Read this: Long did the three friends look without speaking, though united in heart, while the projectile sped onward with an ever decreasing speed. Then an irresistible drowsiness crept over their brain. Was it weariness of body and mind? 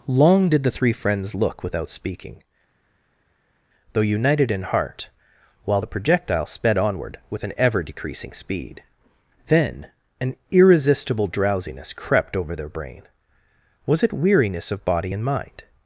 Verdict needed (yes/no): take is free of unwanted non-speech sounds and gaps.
yes